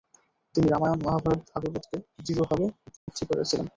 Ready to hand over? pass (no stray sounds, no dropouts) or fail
fail